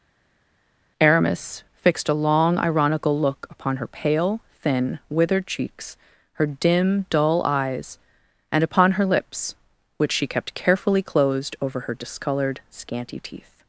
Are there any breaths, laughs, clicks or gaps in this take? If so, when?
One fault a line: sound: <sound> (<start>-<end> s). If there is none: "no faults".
no faults